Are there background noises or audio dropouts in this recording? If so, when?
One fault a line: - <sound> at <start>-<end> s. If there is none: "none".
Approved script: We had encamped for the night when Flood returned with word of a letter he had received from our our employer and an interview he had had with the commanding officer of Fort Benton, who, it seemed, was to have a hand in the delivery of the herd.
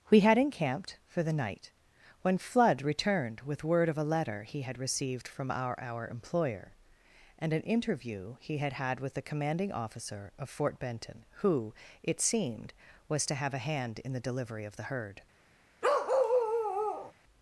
- bark at 15.8-17.1 s